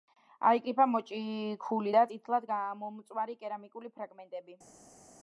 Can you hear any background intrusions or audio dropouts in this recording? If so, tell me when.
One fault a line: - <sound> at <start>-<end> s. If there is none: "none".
none